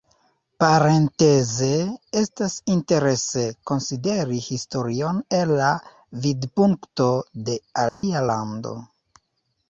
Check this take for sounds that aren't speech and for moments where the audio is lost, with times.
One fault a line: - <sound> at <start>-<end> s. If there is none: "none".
- dropout at 7.9-8.0 s